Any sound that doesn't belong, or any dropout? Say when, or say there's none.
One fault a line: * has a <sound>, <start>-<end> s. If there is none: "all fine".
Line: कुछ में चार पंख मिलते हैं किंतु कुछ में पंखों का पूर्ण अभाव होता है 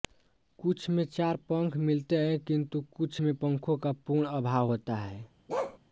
* has a bark, 5.5-5.8 s